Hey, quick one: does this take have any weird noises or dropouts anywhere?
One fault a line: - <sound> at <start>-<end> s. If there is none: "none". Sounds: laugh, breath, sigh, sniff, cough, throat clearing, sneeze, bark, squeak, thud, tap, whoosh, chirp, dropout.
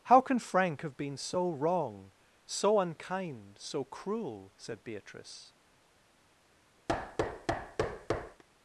- thud at 6.9-8.4 s